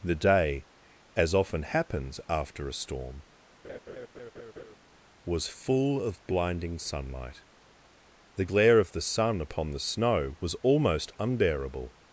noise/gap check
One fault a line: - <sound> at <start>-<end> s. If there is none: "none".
- laugh at 3.6-4.8 s